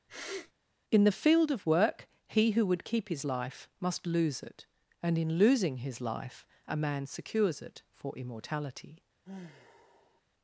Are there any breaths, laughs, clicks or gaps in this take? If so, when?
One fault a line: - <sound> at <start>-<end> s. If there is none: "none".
- sniff at 0.1-0.5 s
- sigh at 9.2-10.2 s